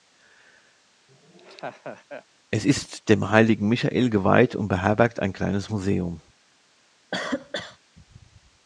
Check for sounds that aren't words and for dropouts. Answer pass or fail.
fail